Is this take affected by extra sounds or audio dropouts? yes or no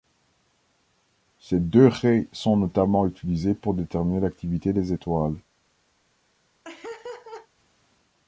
yes